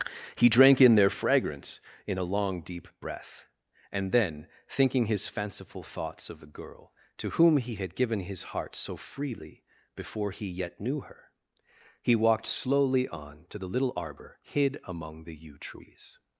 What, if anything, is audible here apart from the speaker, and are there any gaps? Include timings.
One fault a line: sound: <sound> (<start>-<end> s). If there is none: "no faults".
no faults